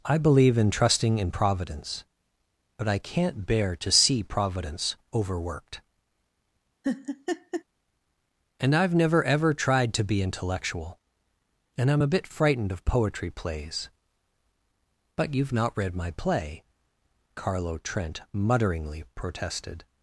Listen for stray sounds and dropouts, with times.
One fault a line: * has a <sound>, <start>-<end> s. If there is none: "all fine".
* has a laugh, 6.8-7.6 s